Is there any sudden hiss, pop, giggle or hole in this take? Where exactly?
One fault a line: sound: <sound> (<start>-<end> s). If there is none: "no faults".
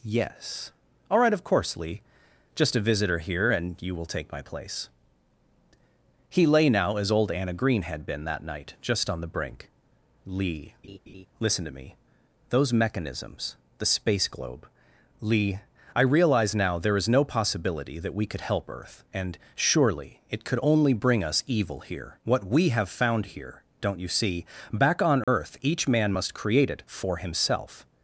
sound: laugh (10.8-11.3 s)
sound: dropout (25.2-25.3 s)